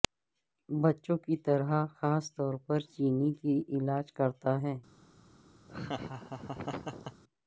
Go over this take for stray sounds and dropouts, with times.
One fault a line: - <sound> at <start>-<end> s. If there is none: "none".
- laugh at 5.7-7.2 s